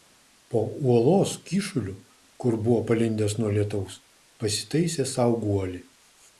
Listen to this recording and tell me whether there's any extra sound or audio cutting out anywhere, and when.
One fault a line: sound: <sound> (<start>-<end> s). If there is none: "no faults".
no faults